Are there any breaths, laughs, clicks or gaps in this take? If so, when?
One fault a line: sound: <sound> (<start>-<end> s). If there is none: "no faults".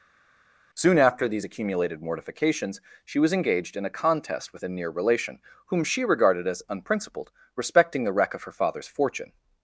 no faults